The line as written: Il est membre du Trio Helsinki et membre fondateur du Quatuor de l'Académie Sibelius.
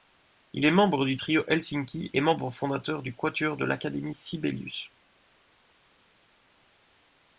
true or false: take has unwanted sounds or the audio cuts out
false